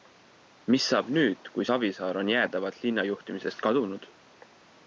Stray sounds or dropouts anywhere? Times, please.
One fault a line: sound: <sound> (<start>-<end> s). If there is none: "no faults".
no faults